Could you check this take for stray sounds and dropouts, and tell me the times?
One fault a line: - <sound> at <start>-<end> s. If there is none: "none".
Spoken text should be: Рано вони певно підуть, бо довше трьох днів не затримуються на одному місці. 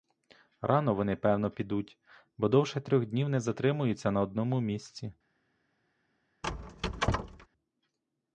- squeak at 6.4-7.5 s